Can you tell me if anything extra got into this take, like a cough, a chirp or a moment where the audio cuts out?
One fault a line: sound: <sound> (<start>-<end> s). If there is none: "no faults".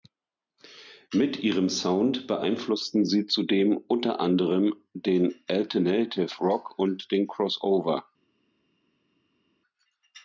no faults